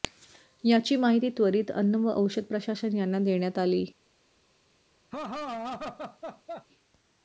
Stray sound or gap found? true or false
true